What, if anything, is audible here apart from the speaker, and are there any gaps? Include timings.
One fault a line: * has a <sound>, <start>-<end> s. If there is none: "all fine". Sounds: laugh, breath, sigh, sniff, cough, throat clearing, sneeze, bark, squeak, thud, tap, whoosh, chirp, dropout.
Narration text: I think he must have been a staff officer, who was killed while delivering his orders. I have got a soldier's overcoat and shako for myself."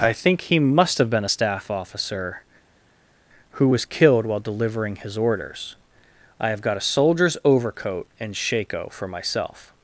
all fine